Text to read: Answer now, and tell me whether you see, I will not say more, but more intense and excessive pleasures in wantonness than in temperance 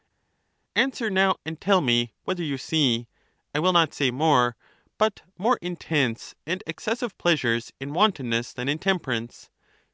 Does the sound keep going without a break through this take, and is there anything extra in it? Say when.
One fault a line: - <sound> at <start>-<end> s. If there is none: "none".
none